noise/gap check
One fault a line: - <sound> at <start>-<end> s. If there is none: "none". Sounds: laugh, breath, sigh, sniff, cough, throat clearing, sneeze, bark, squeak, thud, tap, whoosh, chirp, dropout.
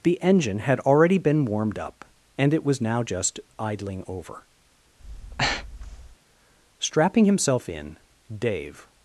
- breath at 5.0-6.2 s